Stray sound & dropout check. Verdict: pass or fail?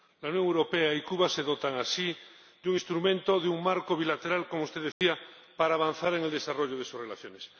fail